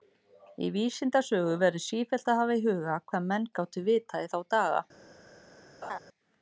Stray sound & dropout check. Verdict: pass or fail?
fail